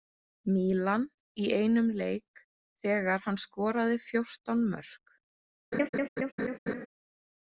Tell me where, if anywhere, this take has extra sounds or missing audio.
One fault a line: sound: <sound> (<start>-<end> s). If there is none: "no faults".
sound: laugh (5.7-6.9 s)